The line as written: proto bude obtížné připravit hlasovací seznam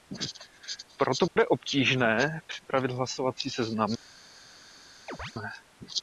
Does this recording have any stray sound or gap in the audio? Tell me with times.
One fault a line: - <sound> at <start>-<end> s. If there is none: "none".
- dropout at 1.3-1.4 s
- chirp at 5.1-5.3 s